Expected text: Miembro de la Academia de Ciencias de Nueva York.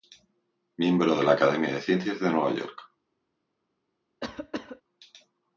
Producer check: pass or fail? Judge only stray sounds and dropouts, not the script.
fail